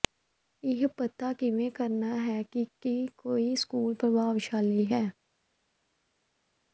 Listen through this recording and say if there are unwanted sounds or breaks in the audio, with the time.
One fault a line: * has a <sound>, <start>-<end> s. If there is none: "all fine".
all fine